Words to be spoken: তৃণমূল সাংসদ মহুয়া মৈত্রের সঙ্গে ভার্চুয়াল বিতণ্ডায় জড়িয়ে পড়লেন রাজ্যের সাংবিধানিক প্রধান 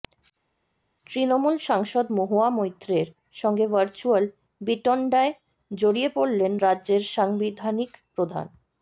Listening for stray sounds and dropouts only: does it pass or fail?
pass